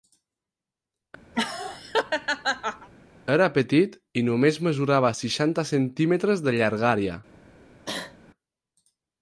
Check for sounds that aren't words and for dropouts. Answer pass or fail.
fail